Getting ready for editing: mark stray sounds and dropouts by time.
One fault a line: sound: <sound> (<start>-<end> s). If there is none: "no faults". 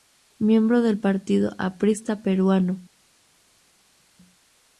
no faults